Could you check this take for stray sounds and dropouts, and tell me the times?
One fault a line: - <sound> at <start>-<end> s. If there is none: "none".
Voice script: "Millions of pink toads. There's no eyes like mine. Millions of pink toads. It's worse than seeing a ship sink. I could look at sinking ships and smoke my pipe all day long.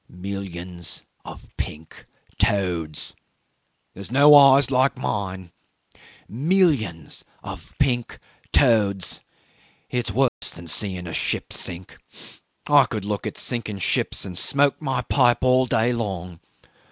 - dropout at 10.3-10.4 s